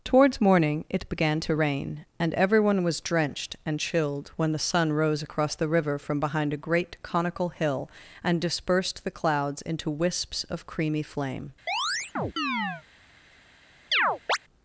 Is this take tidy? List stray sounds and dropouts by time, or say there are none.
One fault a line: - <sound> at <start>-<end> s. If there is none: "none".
- chirp at 11.7-12.8 s
- chirp at 13.9-14.4 s